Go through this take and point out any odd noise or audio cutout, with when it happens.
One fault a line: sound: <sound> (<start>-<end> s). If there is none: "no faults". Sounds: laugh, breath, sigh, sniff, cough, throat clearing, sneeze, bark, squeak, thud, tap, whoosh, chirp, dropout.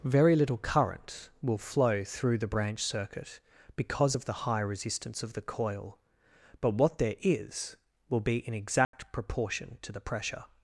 sound: dropout (8.8-8.9 s)